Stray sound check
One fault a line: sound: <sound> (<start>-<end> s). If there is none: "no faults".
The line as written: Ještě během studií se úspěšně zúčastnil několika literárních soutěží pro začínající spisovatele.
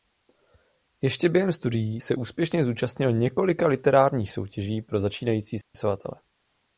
sound: dropout (5.6-5.7 s)